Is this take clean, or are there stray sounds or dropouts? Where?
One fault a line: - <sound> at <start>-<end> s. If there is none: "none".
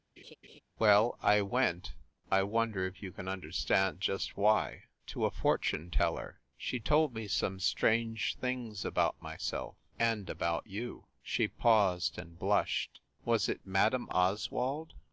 - laugh at 0.2-0.6 s